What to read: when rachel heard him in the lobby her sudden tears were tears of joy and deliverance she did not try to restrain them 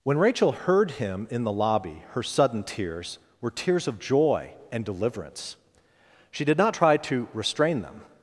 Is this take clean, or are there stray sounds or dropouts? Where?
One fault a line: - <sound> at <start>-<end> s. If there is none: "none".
none